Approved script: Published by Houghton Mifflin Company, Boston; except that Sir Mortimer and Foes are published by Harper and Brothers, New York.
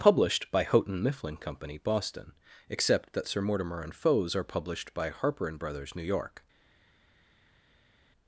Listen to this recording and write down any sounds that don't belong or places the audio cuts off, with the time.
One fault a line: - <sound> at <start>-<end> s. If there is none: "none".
none